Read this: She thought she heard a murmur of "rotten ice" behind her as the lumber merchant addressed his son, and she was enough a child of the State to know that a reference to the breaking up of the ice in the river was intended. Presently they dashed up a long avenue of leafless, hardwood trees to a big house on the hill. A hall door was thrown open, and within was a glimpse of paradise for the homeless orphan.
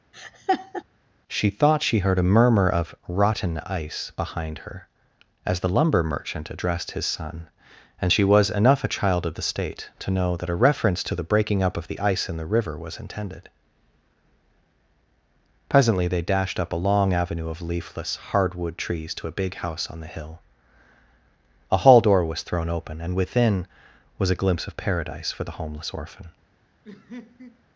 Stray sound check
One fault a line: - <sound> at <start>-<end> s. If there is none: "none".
- laugh at 0.1-0.8 s
- laugh at 26.8-27.6 s